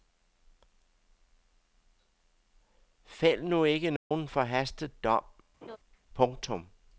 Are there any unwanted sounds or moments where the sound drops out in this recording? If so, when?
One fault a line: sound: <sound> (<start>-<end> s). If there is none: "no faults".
sound: dropout (4.0-4.1 s)
sound: laugh (5.6-5.8 s)